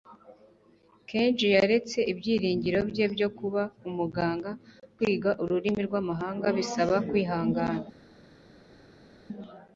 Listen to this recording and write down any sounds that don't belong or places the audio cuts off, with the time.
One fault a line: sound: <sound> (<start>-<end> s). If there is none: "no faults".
no faults